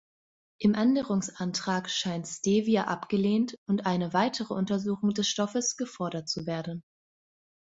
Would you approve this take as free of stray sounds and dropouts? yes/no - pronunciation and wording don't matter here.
yes